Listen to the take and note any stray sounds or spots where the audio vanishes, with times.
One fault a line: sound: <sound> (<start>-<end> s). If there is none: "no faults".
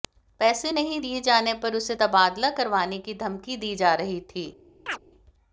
sound: chirp (4.9-5.0 s)